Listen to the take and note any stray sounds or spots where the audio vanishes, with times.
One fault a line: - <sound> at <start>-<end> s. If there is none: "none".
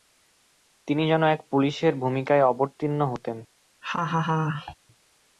- laugh at 3.8-4.7 s